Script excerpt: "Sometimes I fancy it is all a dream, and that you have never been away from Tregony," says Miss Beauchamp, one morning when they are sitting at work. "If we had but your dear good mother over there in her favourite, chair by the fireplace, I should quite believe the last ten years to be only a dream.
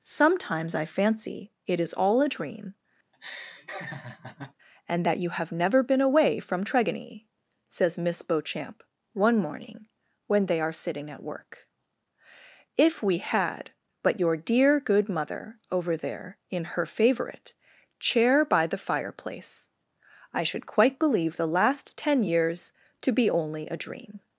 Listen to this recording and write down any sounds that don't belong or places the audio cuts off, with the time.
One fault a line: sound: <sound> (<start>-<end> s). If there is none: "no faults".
sound: laugh (3.1-4.5 s)